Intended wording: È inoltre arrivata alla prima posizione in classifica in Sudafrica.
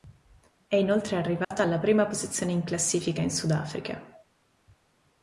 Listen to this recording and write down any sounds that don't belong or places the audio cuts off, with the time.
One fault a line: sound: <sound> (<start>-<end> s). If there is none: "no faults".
sound: dropout (1.4-1.5 s)